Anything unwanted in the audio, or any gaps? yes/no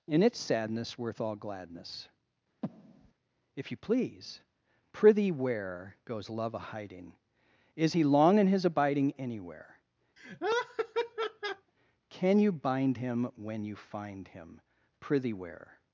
yes